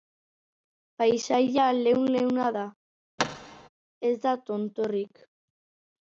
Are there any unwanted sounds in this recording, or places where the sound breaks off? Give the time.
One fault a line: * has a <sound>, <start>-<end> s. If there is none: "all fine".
* has a thud, 3.2-3.7 s